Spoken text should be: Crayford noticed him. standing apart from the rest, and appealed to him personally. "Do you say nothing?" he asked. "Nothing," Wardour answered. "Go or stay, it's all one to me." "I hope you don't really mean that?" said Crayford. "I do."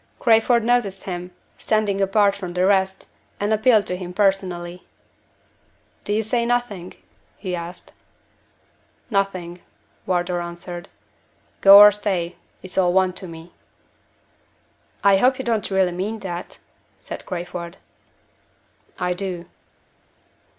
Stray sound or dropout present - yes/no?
no